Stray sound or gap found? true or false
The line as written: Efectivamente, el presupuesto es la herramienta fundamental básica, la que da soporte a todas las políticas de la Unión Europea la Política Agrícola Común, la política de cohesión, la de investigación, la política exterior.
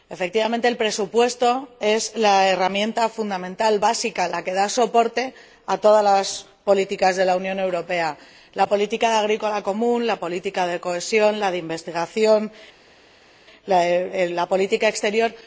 false